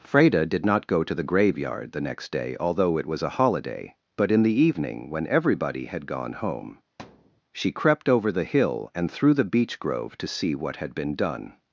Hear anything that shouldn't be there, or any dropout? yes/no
yes